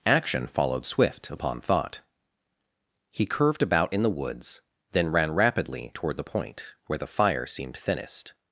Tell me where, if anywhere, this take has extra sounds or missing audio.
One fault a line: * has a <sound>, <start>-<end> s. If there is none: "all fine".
all fine